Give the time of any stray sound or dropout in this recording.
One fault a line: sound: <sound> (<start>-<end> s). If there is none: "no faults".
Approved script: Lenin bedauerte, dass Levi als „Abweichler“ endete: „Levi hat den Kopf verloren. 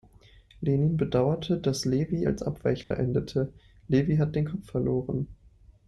sound: dropout (2.8-2.9 s)